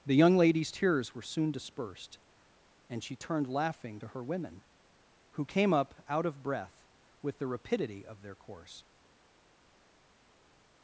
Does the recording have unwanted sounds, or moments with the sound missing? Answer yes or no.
no